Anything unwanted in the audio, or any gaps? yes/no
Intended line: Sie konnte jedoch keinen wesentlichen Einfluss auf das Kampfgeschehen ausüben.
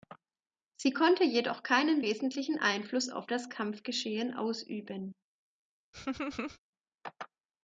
yes